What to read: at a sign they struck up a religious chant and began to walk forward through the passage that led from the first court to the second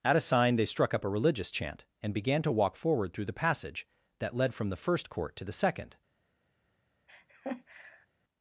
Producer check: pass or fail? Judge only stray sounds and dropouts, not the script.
fail